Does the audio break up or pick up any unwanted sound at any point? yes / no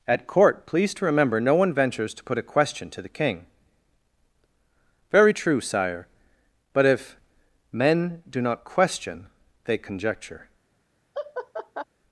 yes